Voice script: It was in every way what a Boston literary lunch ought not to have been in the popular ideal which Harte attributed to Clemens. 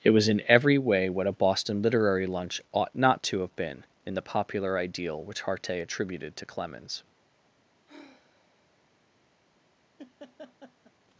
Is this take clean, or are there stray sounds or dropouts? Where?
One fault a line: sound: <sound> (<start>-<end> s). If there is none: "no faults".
sound: sigh (7.9-8.9 s)
sound: laugh (10.0-10.9 s)